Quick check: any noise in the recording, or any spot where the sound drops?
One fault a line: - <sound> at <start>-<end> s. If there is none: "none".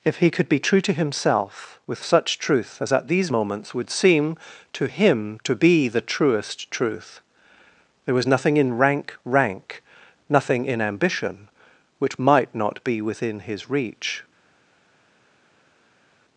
none